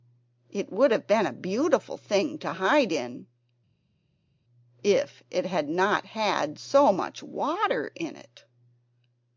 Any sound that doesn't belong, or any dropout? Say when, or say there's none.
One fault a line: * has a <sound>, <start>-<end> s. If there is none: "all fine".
all fine